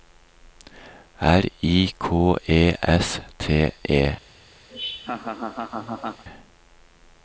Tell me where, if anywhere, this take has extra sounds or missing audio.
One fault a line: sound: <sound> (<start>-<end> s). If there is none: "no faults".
sound: laugh (4.7-6.2 s)